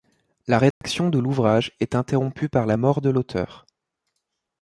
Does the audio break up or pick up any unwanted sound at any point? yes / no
yes